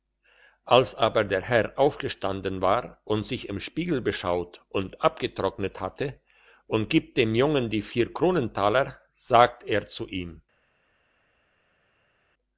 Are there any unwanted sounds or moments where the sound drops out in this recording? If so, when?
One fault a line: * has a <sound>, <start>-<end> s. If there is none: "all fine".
all fine